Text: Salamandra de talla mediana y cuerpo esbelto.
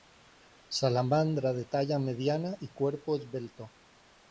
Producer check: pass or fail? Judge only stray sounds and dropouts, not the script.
pass